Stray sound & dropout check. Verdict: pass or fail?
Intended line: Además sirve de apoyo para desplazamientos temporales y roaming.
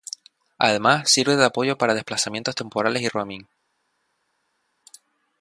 pass